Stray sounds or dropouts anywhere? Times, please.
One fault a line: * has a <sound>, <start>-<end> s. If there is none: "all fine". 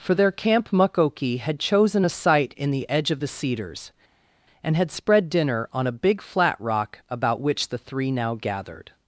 all fine